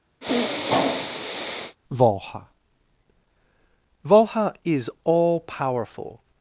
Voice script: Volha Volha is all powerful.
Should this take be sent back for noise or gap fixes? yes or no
yes